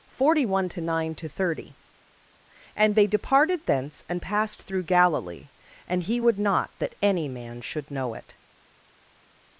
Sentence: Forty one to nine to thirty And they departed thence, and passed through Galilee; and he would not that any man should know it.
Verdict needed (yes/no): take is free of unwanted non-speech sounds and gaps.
yes